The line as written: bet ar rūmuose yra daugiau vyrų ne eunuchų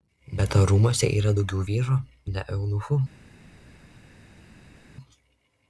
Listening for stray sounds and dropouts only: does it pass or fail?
pass